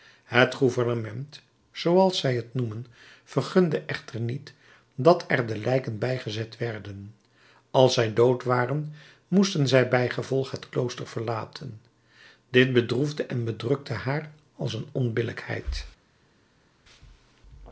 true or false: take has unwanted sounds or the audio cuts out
false